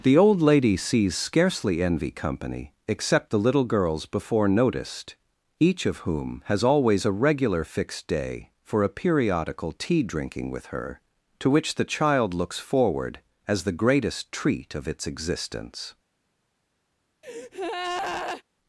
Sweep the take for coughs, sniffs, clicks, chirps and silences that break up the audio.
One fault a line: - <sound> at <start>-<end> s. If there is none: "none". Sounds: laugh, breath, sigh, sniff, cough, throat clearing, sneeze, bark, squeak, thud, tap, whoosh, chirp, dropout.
- breath at 17.2-18.4 s